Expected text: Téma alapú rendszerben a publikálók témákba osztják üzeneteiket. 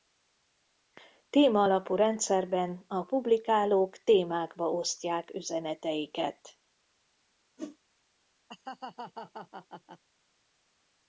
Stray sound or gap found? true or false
true